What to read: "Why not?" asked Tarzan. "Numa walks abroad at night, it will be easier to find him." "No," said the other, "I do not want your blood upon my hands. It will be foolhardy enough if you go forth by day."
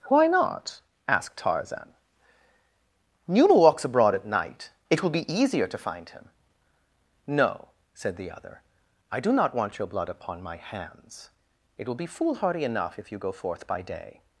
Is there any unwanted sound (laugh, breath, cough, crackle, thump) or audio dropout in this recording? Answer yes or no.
no